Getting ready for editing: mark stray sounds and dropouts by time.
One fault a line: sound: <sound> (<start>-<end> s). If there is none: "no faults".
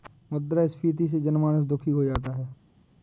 no faults